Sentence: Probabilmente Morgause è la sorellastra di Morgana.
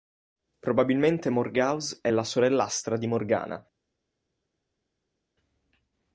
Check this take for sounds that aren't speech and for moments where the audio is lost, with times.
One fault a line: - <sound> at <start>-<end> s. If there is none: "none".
none